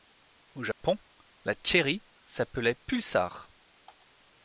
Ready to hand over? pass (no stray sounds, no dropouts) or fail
fail